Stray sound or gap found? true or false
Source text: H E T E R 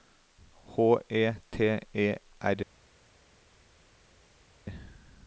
false